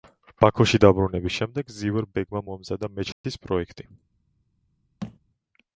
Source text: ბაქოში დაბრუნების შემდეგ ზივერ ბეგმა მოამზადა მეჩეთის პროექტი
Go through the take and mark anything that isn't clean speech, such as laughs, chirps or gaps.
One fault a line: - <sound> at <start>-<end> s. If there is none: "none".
- dropout at 3.1-3.2 s
- thud at 5.0-5.2 s